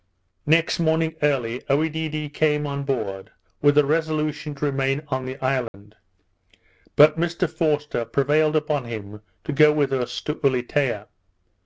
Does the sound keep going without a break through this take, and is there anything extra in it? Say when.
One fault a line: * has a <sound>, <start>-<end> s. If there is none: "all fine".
* has a dropout, 5.7-5.7 s